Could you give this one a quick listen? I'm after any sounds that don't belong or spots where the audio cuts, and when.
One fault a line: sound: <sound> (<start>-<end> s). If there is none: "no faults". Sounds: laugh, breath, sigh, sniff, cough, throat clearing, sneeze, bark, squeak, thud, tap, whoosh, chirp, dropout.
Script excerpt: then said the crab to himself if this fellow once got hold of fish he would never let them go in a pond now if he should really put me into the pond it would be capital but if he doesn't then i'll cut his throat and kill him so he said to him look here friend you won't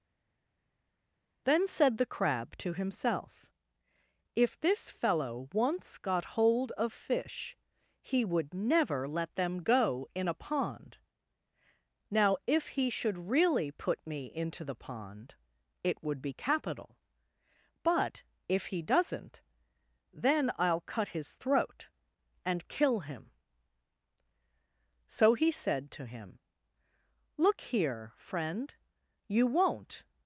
no faults